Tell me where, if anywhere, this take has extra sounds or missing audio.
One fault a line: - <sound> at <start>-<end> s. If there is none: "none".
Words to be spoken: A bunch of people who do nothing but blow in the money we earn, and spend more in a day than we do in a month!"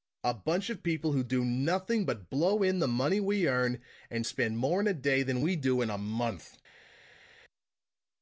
none